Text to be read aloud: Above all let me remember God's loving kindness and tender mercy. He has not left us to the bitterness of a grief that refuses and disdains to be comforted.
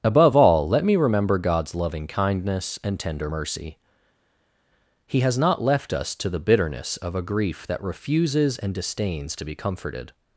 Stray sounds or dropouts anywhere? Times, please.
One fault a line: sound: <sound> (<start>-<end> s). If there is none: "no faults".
no faults